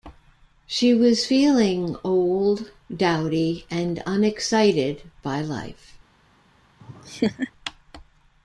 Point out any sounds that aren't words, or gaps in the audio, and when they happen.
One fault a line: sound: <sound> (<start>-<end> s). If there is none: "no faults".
sound: laugh (6.8-7.5 s)